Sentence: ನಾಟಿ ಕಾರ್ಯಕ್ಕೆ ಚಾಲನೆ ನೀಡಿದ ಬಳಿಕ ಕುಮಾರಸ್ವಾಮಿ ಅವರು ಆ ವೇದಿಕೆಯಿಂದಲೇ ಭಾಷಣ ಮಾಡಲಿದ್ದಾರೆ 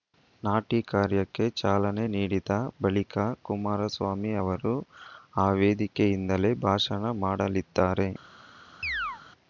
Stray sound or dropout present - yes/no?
yes